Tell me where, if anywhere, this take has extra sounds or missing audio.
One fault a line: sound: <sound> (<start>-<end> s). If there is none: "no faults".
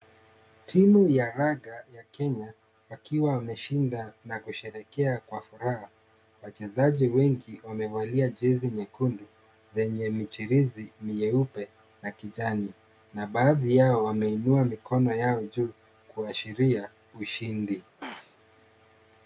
sound: throat clearing (18.0-18.4 s)